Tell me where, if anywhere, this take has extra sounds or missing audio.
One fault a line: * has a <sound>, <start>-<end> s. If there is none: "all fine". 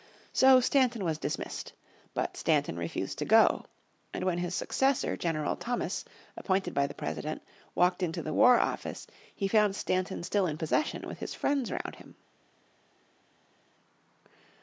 all fine